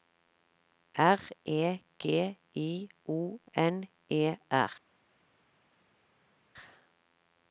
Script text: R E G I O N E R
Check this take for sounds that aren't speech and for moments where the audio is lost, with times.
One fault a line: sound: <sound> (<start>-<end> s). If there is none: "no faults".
no faults